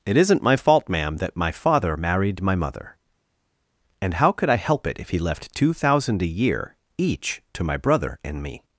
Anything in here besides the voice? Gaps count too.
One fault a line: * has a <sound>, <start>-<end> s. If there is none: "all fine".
all fine